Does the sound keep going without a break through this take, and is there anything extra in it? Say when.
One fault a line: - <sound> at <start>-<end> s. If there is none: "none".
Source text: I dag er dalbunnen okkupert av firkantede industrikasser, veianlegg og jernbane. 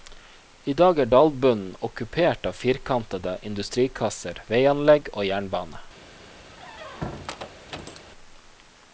- squeak at 6.5-8.0 s